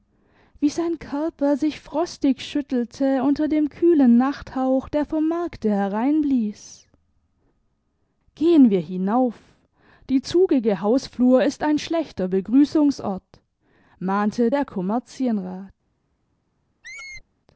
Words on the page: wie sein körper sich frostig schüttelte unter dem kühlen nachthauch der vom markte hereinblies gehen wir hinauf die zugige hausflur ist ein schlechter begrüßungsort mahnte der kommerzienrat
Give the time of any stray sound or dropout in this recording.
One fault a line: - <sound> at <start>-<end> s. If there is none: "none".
- squeak at 16.8-17.2 s